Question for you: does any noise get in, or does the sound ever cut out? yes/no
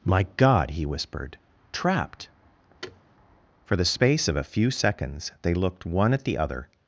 yes